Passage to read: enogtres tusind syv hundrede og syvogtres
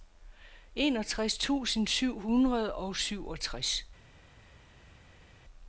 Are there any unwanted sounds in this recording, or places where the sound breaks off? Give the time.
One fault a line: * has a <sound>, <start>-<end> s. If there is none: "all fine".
all fine